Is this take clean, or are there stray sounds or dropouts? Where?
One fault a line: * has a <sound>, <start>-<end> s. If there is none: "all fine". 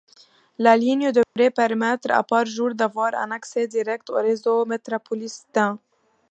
* has a dropout, 1.2-1.4 s